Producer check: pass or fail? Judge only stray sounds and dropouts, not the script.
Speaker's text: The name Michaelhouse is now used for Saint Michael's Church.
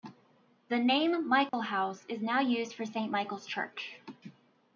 fail